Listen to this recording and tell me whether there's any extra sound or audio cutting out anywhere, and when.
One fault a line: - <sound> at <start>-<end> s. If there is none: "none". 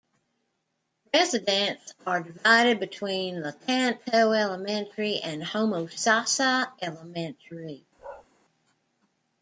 - bark at 8.0-8.3 s